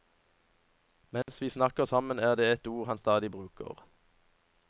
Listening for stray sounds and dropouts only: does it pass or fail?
fail